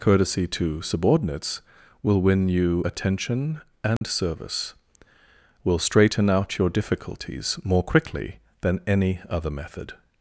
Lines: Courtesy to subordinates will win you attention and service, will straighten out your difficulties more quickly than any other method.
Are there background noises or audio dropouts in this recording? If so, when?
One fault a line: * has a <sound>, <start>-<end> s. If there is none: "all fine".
* has a dropout, 4.0-4.0 s